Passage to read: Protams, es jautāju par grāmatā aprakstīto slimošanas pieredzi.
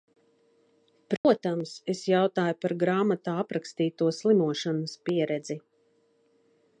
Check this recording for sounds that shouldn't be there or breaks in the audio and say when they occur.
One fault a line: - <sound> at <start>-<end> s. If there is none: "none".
- dropout at 1.2-1.2 s